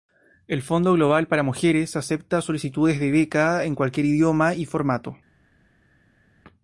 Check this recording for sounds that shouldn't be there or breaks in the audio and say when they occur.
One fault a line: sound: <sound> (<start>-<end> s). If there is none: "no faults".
no faults